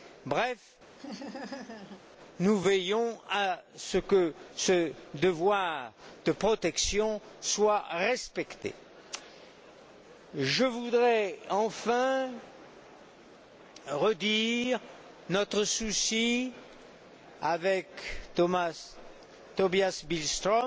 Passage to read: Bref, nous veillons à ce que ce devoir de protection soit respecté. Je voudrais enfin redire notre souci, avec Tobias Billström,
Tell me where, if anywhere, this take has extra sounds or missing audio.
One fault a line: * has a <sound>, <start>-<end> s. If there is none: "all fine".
* has a laugh, 1.0-2.0 s